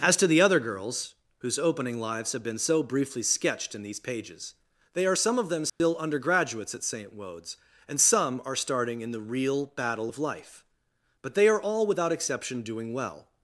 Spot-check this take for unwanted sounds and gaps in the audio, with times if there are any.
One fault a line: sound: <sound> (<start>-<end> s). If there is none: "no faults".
sound: dropout (5.7-5.8 s)